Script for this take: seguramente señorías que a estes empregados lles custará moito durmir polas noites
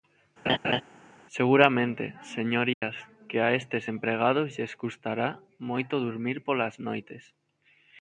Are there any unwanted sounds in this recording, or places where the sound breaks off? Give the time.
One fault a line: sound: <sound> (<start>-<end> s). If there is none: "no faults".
sound: laugh (0.5-0.8 s)
sound: dropout (2.7-2.8 s)